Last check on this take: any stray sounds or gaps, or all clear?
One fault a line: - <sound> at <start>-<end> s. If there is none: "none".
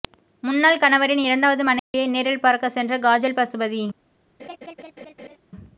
- dropout at 1.8-1.9 s
- laugh at 4.4-5.4 s